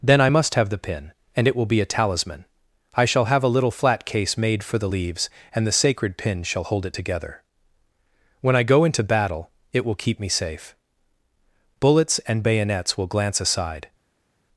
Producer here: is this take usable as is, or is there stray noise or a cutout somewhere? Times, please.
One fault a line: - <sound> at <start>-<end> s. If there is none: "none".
none